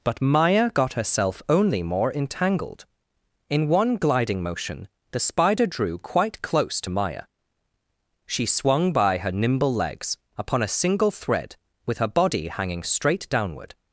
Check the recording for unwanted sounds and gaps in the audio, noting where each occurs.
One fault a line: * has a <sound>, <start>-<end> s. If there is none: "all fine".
all fine